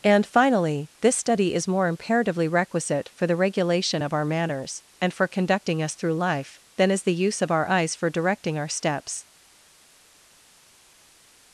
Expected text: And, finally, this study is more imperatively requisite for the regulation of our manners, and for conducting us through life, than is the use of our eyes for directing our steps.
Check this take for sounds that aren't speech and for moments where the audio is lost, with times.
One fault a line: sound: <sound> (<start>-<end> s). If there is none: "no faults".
no faults